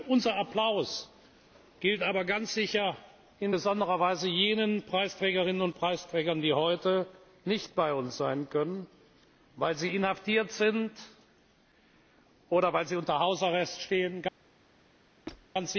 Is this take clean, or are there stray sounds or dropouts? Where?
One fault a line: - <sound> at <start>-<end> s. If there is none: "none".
- squeak at 15.3-15.5 s